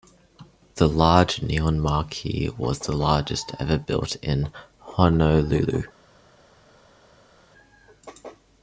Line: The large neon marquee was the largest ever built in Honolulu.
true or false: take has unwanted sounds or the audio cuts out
false